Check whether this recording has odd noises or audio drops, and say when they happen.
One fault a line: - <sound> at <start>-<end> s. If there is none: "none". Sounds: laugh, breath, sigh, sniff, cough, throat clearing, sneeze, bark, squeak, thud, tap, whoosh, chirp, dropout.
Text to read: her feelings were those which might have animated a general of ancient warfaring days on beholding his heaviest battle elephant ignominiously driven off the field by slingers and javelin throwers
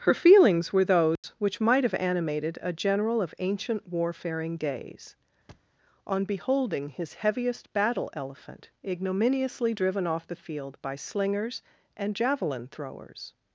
- dropout at 1.2-1.2 s
- thud at 5.5-5.7 s